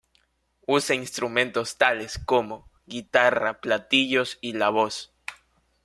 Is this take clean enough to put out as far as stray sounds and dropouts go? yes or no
yes